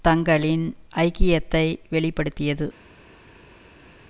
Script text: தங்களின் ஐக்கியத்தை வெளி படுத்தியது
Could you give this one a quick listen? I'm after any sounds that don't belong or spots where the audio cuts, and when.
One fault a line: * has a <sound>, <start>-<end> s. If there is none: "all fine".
all fine